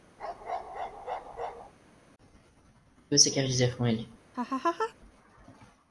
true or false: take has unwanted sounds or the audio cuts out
true